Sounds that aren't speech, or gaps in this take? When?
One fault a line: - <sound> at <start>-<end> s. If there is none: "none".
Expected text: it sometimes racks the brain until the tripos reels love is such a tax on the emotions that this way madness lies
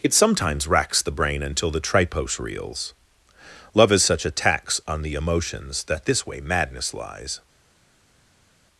none